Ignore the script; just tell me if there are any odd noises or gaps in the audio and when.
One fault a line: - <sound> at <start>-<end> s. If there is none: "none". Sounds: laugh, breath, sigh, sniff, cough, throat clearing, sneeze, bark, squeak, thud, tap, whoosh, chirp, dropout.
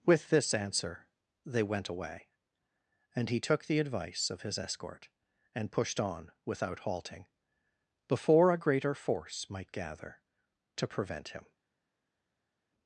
none